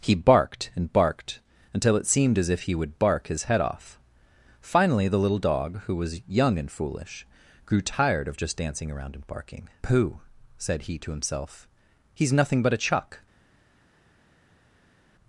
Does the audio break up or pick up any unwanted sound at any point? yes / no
no